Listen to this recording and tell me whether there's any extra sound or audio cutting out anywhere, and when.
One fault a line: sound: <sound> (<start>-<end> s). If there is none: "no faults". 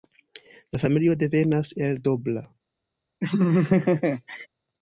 sound: laugh (3.2-4.5 s)